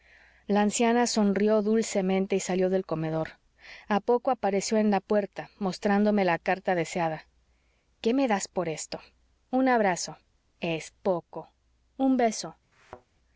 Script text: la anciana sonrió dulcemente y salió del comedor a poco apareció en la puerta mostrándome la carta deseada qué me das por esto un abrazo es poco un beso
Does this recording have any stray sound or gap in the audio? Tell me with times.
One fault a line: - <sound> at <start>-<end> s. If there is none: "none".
- thud at 12.7-13.1 s